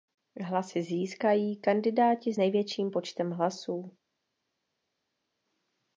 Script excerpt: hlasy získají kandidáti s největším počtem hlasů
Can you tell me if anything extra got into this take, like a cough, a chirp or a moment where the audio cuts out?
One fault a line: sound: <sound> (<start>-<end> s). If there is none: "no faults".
no faults